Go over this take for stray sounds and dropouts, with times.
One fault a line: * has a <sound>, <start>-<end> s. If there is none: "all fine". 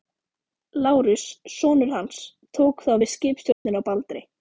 * has a dropout, 3.5-3.7 s